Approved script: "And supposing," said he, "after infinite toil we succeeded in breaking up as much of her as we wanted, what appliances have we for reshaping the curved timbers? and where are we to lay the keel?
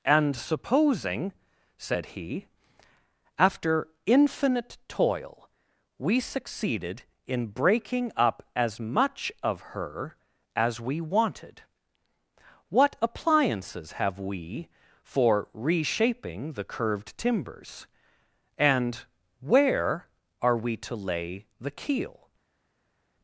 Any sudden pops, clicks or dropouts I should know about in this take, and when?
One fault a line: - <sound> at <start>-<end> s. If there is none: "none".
none